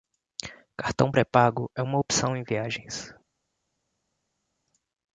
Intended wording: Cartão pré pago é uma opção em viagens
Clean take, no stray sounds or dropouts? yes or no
yes